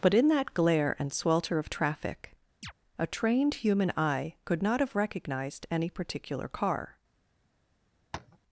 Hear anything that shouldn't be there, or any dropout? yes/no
yes